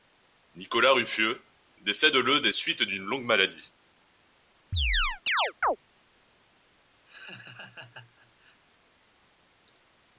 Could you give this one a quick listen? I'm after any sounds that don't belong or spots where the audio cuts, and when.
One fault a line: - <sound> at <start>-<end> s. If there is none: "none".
- chirp at 4.7-5.8 s
- laugh at 7.0-8.6 s